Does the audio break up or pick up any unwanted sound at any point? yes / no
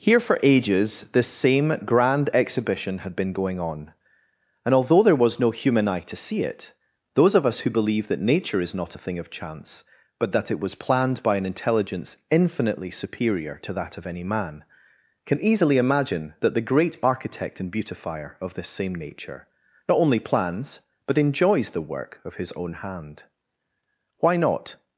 no